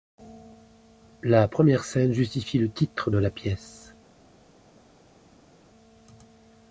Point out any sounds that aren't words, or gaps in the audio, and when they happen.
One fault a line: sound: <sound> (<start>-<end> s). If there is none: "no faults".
no faults